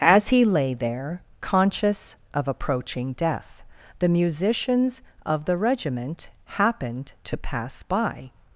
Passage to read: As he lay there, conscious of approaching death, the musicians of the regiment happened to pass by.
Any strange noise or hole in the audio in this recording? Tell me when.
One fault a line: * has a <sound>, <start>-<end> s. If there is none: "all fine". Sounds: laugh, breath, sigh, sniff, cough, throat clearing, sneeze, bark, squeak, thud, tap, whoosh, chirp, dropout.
all fine